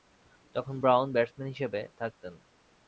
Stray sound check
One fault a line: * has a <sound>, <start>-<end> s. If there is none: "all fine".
all fine